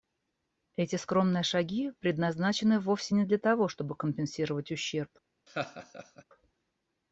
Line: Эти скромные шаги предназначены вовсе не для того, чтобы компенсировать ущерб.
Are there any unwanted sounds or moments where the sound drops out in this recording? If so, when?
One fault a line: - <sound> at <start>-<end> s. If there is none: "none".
- laugh at 5.5-6.2 s